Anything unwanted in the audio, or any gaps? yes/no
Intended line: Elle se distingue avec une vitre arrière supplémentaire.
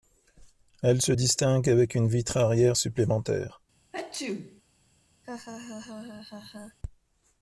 yes